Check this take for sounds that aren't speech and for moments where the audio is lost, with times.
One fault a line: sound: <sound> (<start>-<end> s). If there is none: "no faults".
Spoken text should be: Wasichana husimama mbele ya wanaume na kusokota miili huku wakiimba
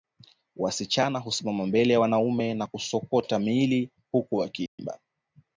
sound: dropout (4.7-4.8 s)